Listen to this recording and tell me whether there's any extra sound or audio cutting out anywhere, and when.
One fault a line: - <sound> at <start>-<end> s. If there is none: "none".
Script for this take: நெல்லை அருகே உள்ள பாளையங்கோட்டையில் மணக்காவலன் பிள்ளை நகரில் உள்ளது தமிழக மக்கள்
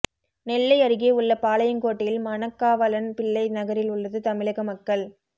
none